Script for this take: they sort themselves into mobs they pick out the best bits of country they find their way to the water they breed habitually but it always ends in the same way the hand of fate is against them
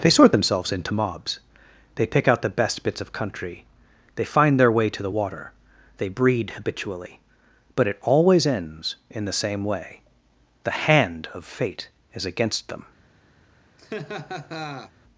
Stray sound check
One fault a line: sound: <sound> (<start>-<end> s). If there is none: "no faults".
sound: laugh (13.8-14.9 s)